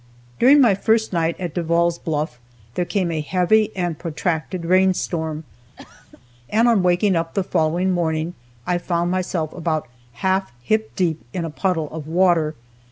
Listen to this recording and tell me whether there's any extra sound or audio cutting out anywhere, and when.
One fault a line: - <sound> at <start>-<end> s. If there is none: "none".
- cough at 5.8-6.2 s